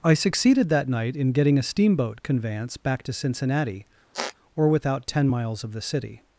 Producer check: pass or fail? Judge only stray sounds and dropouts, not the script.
fail